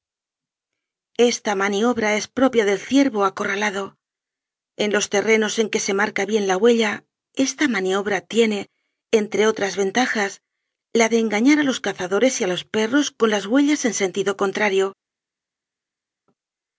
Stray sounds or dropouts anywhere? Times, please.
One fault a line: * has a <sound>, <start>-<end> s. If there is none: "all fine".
all fine